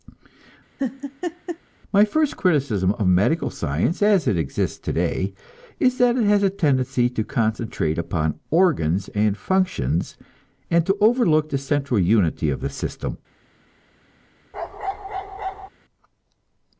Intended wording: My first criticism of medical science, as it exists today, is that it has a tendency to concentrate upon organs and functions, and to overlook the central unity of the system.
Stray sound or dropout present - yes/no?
yes